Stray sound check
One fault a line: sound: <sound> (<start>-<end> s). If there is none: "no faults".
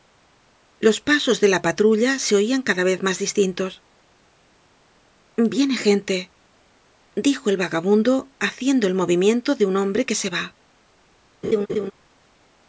sound: laugh (11.4-11.9 s)